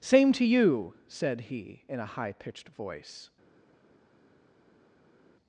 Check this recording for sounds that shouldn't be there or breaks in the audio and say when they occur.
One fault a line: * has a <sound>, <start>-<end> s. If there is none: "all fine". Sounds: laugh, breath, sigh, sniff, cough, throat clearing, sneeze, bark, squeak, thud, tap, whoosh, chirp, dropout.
all fine